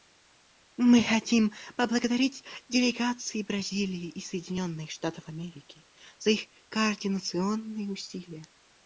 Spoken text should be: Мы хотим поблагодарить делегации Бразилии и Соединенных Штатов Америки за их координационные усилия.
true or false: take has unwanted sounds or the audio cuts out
false